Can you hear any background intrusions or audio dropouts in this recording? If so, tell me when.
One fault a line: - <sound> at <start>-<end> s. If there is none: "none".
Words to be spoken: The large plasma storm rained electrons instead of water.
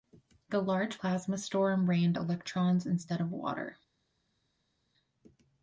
none